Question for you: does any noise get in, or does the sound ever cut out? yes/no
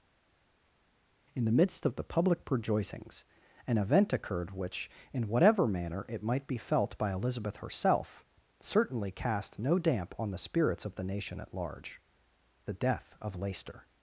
no